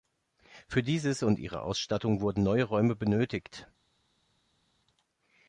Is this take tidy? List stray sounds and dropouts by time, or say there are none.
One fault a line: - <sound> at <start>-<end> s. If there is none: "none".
none